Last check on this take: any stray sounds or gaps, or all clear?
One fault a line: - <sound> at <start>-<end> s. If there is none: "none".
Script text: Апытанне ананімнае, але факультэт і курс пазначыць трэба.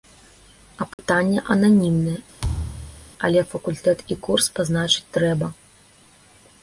- dropout at 0.9-1.0 s
- thud at 2.4-3.1 s